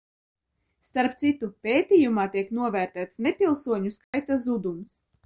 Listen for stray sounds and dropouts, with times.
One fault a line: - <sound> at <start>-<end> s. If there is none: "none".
- dropout at 4.0-4.1 s